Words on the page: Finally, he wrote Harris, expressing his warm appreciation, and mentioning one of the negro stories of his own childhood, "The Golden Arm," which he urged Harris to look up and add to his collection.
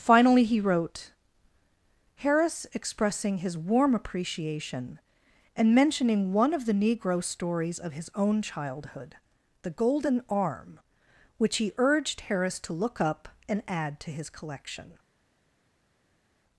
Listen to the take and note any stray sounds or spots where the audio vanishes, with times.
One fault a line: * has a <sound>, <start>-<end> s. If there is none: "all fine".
all fine